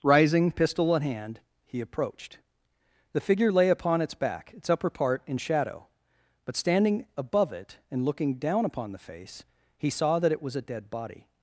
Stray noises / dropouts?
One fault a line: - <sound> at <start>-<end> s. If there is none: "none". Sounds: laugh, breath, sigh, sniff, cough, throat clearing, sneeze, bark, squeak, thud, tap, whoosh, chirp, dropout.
none